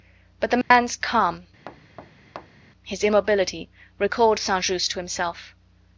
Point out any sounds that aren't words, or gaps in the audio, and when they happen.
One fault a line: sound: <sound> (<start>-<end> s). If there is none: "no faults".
sound: dropout (0.6-0.7 s)
sound: thud (1.7-2.7 s)